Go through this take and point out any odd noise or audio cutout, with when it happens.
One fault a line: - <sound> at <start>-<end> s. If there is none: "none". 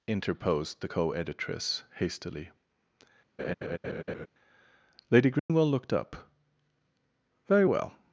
- laugh at 3.4-4.3 s
- dropout at 5.4-5.5 s